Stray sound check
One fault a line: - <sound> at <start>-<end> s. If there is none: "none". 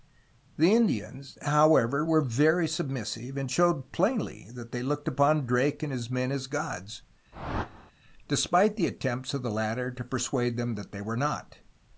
- whoosh at 7.3-7.9 s